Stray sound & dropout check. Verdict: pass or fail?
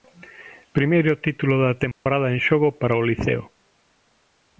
fail